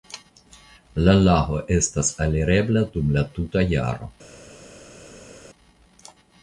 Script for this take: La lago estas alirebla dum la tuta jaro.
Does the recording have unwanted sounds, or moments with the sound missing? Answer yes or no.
no